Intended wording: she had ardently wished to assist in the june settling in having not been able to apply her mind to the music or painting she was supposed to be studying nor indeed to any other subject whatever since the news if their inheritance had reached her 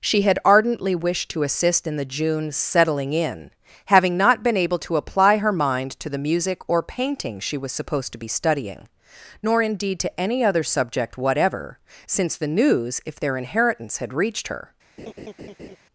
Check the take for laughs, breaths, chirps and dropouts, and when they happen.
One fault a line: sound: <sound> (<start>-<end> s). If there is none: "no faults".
sound: laugh (15.0-15.8 s)